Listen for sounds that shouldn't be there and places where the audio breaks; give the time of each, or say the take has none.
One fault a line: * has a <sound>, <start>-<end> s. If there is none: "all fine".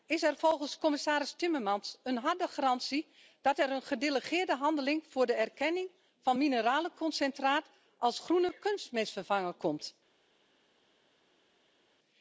all fine